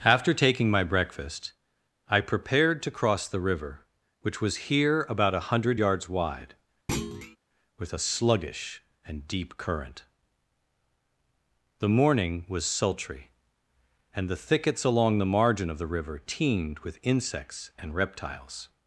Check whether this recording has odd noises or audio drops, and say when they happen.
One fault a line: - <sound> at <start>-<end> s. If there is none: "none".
- thud at 6.9-7.4 s